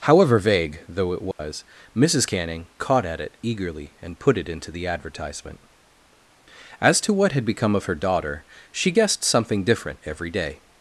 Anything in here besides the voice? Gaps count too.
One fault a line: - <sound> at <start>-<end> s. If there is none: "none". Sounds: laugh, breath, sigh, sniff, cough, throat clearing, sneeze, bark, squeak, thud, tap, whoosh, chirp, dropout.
- dropout at 1.3-1.4 s